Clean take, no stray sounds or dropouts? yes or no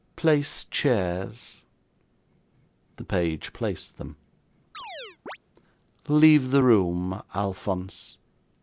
no